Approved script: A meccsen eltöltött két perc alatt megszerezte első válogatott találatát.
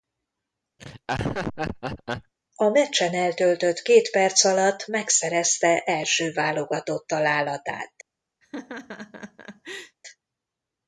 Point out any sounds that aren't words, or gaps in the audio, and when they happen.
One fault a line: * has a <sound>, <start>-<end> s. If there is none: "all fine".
* has a laugh, 0.8-2.3 s
* has a laugh, 8.4-10.0 s